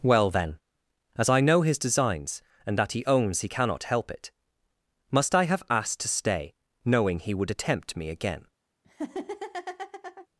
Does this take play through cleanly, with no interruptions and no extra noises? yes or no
no